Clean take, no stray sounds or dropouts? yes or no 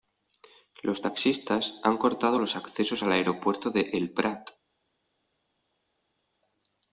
yes